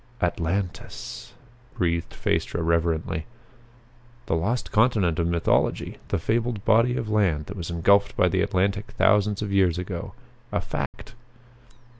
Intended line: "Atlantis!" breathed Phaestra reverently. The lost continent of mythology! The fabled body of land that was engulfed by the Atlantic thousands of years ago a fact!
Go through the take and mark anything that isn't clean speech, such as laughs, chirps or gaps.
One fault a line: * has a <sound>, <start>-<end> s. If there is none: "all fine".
* has a dropout, 10.9-10.9 s